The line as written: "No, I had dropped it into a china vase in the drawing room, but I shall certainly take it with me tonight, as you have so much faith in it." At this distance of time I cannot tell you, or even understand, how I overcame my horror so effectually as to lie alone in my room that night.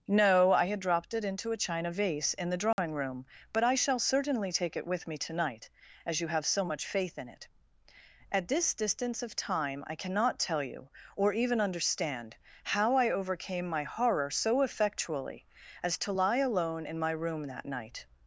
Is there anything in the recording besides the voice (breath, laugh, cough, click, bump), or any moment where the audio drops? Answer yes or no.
yes